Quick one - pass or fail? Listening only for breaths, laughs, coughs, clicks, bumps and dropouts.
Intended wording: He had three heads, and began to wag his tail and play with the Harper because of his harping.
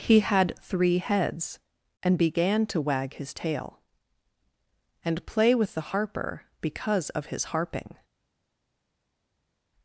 pass